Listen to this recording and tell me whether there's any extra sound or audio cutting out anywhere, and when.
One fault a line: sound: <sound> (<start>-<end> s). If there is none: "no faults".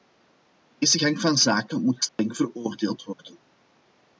sound: dropout (2.1-2.2 s)